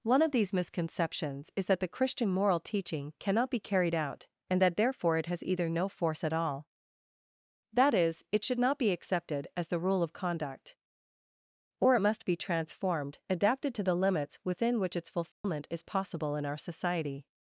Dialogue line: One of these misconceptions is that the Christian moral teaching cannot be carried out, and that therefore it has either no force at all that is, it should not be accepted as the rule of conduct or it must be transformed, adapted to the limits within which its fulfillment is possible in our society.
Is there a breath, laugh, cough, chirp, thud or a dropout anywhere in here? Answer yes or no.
yes